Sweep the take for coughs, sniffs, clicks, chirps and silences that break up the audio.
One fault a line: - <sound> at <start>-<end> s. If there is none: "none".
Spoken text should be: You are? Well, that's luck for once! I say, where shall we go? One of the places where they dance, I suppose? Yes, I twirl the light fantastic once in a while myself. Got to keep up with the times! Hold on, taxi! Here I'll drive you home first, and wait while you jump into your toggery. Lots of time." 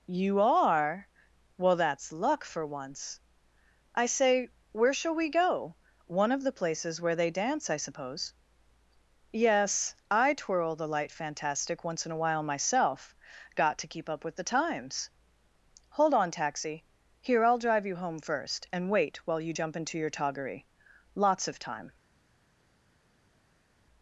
none